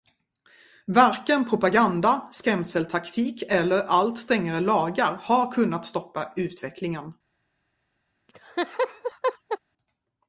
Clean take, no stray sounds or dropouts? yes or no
no